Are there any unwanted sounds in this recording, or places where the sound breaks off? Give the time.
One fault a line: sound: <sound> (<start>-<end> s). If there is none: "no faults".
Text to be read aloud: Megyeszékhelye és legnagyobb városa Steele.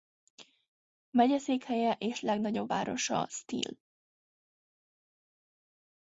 no faults